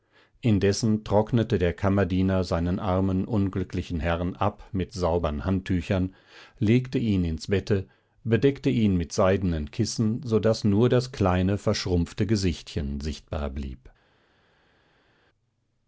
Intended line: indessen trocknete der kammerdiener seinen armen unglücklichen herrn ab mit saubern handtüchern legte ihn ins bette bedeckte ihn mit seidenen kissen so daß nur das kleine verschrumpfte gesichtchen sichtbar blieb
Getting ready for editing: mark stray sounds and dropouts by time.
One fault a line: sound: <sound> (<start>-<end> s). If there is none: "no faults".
no faults